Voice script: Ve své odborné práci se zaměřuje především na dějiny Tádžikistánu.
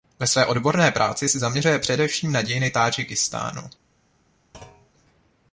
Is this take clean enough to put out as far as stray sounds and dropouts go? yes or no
no